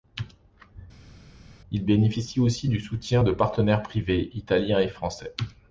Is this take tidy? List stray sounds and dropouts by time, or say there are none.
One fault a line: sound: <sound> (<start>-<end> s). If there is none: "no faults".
no faults